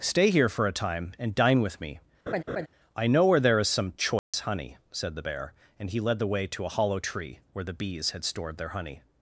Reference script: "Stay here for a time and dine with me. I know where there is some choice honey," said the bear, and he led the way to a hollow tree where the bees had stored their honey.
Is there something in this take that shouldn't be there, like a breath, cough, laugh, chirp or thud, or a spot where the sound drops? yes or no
yes